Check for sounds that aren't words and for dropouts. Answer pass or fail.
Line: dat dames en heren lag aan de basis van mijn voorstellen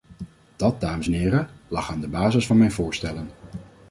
pass